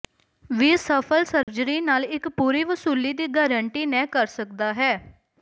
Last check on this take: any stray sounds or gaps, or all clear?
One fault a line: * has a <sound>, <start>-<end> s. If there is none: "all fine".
* has a dropout, 1.4-1.5 s